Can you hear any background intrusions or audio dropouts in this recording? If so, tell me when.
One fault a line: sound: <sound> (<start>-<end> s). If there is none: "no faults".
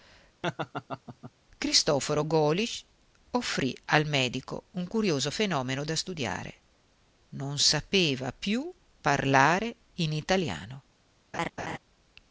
sound: laugh (0.4-1.3 s)
sound: laugh (11.3-11.8 s)